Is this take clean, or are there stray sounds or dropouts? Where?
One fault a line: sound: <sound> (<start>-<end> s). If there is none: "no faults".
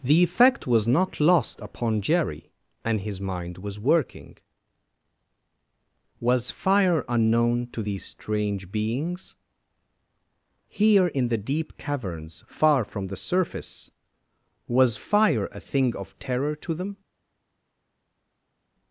no faults